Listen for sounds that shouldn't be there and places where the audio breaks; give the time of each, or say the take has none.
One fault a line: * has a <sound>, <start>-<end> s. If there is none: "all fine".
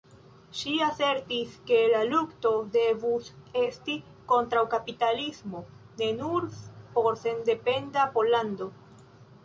all fine